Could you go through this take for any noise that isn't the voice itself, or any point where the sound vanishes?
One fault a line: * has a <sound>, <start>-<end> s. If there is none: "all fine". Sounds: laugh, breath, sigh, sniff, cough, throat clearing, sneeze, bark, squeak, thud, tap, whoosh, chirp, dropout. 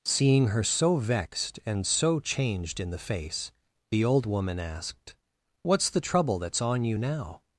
all fine